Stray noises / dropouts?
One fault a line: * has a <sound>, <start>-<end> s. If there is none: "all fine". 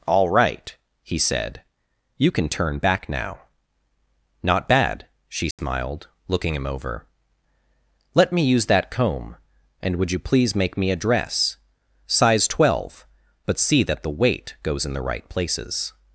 * has a dropout, 5.5-5.6 s